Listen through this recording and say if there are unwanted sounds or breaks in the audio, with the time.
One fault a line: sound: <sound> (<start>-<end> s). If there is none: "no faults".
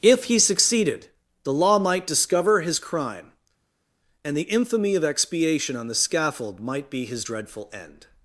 no faults